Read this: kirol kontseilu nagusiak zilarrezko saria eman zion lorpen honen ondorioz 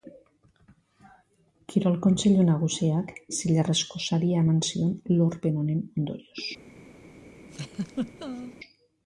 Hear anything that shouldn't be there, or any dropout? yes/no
yes